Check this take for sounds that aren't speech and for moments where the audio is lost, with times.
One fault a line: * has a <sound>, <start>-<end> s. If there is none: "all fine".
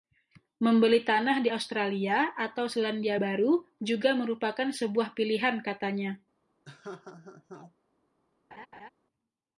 * has a laugh, 6.6-7.7 s
* has a laugh, 8.5-8.9 s